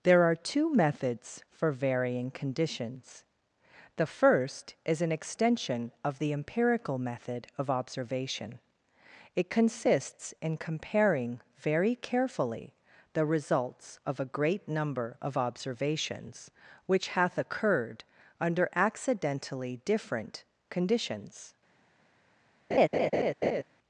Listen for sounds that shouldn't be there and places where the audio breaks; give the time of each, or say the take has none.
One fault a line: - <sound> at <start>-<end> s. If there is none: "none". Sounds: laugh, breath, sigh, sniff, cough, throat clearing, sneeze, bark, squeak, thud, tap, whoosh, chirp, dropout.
- laugh at 22.7-23.6 s